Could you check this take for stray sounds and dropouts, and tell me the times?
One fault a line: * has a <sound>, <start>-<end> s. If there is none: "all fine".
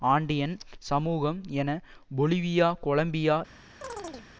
* has a chirp, 3.8-4.3 s